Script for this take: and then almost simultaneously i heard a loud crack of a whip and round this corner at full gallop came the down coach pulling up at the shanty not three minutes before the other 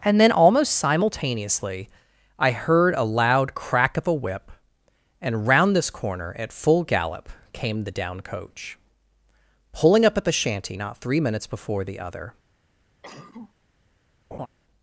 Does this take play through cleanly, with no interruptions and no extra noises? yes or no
no